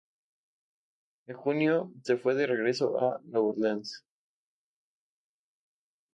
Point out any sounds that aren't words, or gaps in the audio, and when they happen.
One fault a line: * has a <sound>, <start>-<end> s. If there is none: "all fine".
all fine